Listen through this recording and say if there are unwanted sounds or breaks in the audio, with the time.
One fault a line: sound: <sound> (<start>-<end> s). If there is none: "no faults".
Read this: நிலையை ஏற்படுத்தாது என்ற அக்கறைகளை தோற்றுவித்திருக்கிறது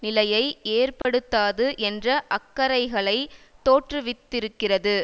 sound: dropout (1.0-1.0 s)